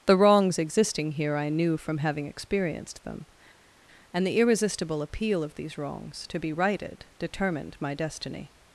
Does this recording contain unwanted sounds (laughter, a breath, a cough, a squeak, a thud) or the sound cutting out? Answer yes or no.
no